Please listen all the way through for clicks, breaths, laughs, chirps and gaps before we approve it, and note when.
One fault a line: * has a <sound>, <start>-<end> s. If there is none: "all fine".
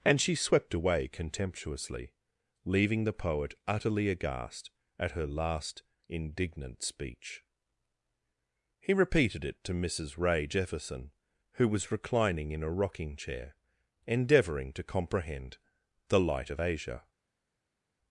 all fine